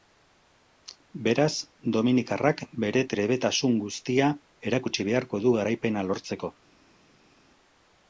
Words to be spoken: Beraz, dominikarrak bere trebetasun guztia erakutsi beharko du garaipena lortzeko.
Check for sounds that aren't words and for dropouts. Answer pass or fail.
pass